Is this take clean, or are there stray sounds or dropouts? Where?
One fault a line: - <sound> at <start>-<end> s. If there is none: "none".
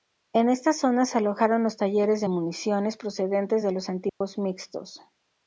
- dropout at 4.1-4.2 s